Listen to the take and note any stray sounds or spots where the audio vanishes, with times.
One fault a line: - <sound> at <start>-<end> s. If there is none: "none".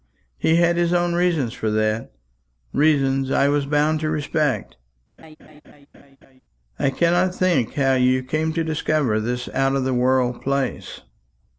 - laugh at 5.2-6.4 s